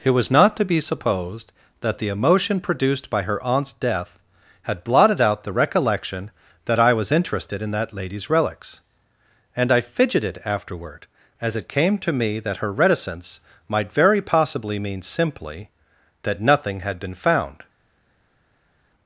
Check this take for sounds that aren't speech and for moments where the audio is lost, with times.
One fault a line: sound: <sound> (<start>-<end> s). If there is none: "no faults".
no faults